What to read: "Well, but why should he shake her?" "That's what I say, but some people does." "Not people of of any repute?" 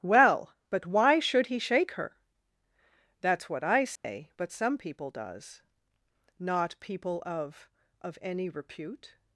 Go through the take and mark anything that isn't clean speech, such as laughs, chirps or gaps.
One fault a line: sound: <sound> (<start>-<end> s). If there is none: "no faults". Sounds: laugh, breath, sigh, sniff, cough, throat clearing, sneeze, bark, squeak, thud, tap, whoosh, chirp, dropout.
sound: dropout (4.0-4.0 s)